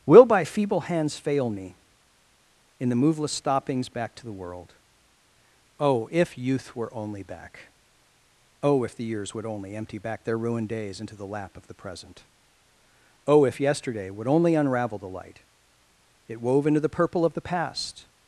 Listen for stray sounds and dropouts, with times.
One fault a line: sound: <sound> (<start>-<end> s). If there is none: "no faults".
no faults